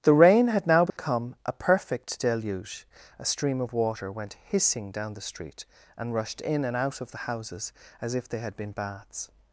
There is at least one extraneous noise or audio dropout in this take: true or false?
true